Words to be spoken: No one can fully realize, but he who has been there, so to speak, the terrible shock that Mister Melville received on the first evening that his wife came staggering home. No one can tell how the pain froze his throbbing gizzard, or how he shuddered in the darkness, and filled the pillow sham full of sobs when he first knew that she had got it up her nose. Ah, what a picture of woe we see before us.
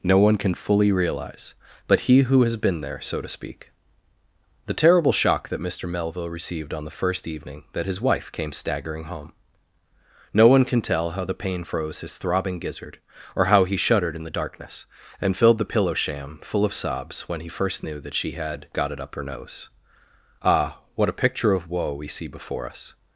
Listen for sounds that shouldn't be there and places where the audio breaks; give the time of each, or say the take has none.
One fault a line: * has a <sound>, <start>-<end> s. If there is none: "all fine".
all fine